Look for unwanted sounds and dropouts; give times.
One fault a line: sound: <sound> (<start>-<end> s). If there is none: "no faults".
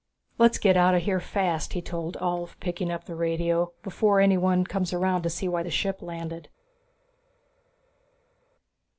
no faults